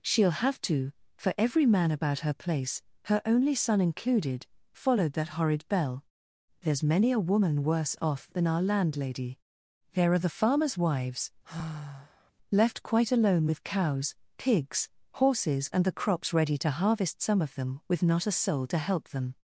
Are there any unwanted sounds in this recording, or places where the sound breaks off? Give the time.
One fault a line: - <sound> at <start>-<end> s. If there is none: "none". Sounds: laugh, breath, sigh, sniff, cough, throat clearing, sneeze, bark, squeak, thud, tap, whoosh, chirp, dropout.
- sigh at 11.4-12.3 s